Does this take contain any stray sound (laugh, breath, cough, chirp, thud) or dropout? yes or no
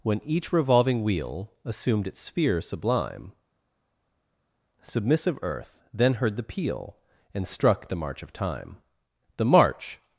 no